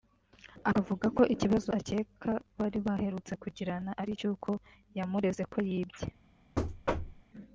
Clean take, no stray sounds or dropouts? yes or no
no